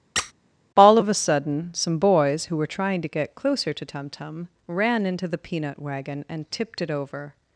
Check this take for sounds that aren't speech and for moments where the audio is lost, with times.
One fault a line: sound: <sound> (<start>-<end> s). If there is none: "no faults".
sound: squeak (0.2-0.3 s)